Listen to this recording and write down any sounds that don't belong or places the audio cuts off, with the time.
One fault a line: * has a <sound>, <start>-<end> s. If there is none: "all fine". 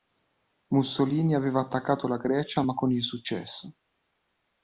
all fine